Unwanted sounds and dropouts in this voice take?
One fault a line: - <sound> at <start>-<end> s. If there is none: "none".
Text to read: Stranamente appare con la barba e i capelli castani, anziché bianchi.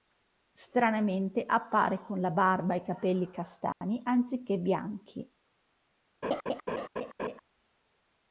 - dropout at 3.7-3.8 s
- laugh at 6.2-7.4 s